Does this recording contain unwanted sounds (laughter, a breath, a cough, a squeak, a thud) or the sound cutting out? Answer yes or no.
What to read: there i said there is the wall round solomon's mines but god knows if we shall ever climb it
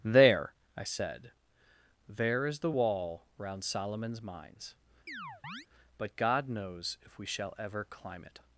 yes